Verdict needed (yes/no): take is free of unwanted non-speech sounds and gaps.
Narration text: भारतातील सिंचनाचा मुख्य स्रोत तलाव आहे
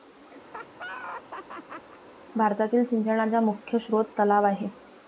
no